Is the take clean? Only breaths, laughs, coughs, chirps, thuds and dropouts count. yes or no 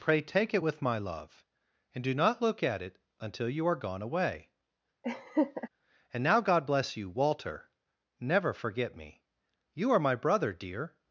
no